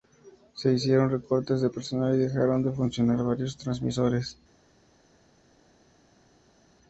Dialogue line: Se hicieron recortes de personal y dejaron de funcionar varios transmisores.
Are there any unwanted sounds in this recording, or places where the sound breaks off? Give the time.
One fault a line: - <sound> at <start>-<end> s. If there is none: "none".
none